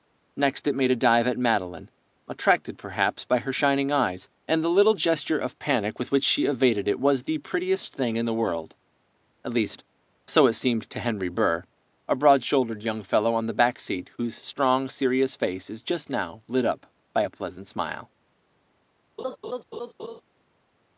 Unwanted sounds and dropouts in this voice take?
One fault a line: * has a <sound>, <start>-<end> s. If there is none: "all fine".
* has a laugh, 19.2-20.2 s